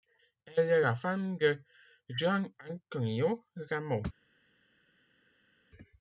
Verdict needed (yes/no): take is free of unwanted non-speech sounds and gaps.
yes